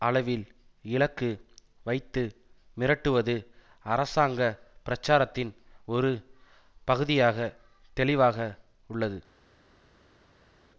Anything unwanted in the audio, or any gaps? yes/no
no